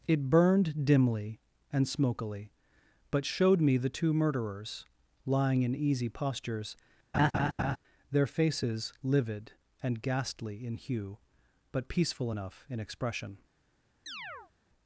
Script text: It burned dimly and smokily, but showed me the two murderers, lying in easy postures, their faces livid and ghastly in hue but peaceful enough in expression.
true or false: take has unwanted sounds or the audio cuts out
true